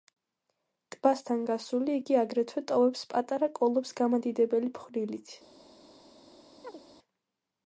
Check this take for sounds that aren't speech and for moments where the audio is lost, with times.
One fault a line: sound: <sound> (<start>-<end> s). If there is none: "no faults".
sound: chirp (6.6-6.8 s)